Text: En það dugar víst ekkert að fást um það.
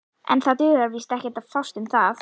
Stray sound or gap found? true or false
false